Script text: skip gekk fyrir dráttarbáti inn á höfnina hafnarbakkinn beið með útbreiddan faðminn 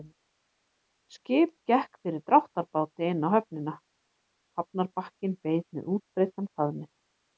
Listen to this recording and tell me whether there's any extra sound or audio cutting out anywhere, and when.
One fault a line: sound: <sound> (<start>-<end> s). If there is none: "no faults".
no faults